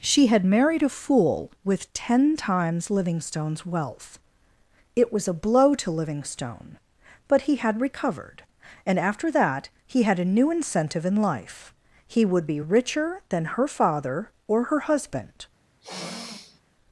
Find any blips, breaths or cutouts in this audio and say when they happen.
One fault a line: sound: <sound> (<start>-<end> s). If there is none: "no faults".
sound: sniff (15.8-16.6 s)